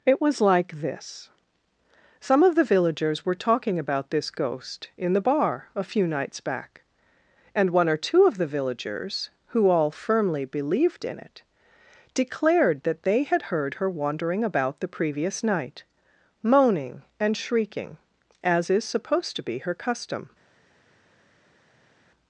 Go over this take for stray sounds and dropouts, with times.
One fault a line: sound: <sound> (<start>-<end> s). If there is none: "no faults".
no faults